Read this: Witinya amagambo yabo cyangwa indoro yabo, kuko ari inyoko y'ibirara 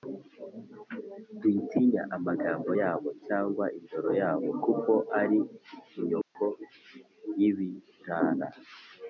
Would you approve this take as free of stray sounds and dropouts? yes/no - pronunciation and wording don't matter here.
no